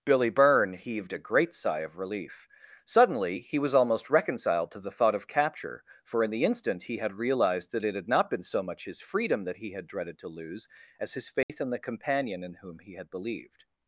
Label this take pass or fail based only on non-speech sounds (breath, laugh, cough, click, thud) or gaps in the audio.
fail